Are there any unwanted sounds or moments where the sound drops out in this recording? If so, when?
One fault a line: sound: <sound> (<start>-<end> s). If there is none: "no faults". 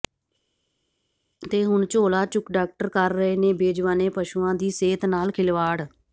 no faults